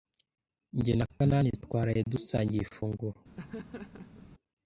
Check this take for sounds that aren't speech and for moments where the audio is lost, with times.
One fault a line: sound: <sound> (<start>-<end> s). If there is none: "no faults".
sound: laugh (3.4-4.3 s)